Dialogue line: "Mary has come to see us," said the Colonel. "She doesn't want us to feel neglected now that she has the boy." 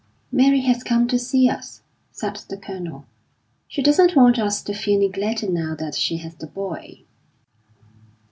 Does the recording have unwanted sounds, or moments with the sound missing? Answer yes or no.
no